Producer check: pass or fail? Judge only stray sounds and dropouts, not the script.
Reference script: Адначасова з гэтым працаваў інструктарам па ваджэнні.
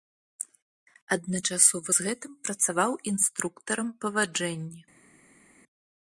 pass